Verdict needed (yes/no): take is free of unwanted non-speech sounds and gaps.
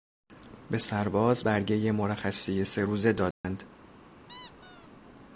no